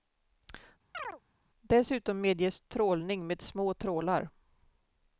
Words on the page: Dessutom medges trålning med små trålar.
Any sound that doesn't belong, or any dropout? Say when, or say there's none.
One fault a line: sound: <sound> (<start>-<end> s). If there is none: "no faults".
sound: chirp (0.9-1.2 s)